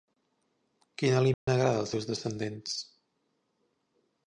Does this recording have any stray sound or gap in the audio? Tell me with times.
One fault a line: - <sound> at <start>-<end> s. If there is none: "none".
- dropout at 1.3-1.5 s